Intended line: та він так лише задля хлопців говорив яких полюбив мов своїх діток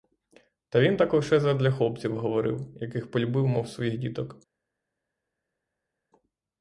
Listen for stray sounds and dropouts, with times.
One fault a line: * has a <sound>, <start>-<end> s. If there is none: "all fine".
all fine